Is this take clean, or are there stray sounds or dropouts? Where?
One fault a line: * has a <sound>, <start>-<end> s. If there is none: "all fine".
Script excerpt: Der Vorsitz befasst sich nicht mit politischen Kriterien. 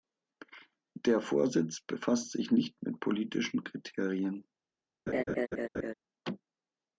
* has a laugh, 5.1-5.9 s